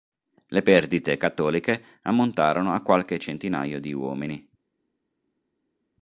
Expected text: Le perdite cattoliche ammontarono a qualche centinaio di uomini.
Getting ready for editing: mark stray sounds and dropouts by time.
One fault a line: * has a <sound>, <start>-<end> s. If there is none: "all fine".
all fine